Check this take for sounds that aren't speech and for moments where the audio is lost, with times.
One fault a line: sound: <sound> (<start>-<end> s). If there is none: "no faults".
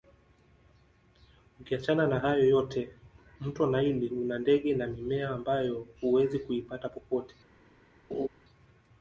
sound: laugh (8.1-8.3 s)